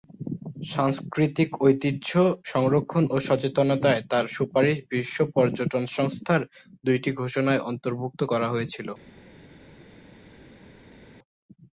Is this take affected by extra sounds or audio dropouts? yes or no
no